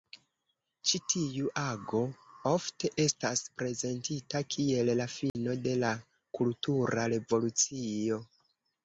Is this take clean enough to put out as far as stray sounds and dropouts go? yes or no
no